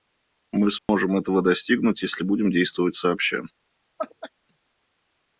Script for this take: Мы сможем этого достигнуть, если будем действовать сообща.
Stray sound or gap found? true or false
true